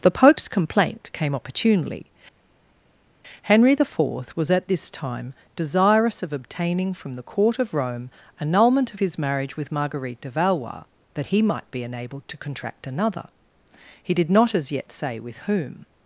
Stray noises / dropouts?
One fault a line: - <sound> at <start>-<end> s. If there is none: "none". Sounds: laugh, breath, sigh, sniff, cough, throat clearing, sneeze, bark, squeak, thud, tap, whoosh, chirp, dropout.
none